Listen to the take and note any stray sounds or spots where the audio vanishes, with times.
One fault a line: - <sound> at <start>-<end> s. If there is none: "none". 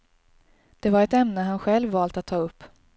none